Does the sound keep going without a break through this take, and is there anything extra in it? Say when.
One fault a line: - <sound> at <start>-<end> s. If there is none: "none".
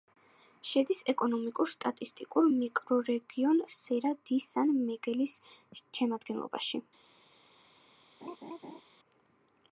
- laugh at 8.2-8.8 s